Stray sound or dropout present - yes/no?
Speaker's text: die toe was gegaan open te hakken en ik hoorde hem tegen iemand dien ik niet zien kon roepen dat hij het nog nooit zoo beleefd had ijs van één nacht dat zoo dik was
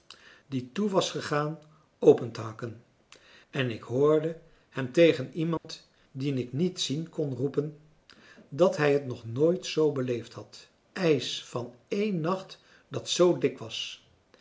yes